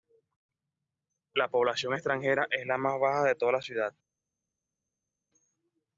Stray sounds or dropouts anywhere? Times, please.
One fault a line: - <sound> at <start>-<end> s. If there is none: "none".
none